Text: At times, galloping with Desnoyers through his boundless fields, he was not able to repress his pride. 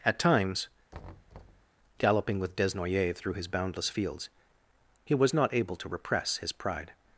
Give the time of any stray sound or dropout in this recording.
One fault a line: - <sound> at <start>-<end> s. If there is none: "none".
- thud at 0.9-1.7 s